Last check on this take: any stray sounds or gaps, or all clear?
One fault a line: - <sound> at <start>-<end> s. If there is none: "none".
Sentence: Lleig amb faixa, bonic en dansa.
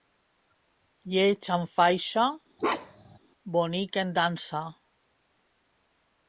- bark at 2.6-3.2 s